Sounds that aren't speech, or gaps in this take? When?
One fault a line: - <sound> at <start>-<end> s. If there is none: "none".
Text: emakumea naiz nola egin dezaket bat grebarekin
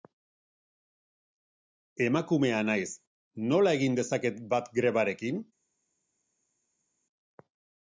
none